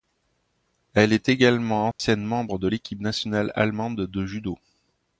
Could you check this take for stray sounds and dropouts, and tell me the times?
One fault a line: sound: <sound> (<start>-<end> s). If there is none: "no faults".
sound: dropout (1.9-2.0 s)